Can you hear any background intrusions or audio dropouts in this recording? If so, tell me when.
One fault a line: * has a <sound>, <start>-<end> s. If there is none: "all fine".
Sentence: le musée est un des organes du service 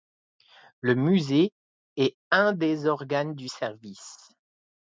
all fine